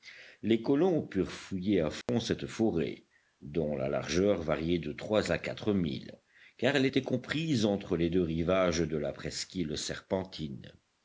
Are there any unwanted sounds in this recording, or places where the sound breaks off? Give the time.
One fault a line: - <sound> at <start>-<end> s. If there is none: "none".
- dropout at 2.0-2.1 s